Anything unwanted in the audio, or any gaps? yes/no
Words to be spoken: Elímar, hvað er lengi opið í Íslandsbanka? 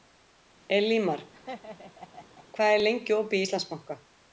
yes